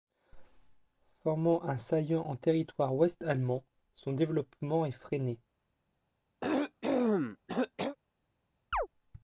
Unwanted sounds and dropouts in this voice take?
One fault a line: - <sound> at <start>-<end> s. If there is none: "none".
- cough at 6.4-8.0 s
- chirp at 8.7-8.9 s